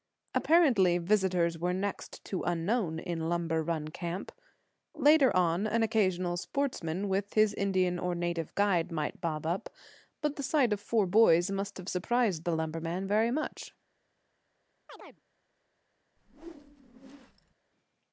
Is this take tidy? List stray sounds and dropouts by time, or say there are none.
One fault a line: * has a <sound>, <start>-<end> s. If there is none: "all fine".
* has a chirp, 14.9-15.2 s
* has a whoosh, 16.2-17.5 s